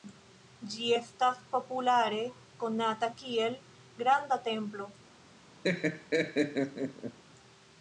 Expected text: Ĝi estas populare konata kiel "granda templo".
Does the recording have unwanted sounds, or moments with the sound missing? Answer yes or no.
yes